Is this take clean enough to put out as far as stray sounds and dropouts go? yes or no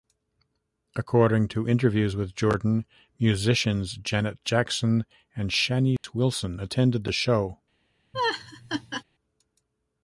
no